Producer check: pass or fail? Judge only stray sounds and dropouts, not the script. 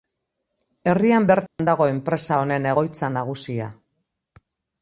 fail